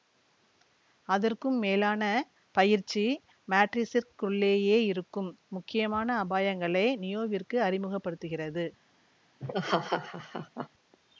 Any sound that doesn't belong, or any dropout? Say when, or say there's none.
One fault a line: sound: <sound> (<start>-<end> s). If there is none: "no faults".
sound: laugh (9.4-10.7 s)